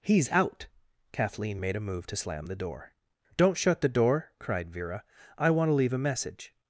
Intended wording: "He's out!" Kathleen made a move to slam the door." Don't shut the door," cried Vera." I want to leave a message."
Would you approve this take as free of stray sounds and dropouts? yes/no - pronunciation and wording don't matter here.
yes